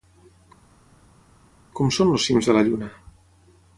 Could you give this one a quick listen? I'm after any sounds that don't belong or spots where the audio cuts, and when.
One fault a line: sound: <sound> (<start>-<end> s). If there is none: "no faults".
no faults